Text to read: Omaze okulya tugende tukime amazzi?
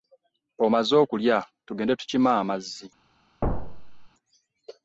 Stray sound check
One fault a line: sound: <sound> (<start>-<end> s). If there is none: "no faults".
sound: thud (3.4-4.1 s)